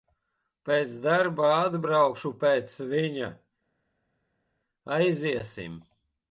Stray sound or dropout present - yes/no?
no